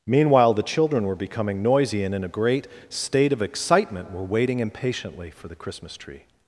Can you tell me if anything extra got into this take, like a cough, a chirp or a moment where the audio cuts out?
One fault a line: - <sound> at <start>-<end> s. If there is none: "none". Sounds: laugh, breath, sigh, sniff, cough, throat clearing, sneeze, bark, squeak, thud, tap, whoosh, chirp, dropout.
none